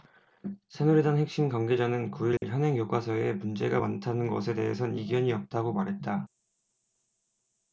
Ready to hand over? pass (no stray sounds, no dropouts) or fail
fail